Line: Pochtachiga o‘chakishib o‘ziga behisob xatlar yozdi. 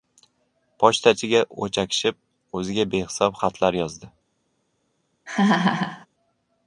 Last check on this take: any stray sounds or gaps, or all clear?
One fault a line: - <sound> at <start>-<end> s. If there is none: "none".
- laugh at 5.3-6.1 s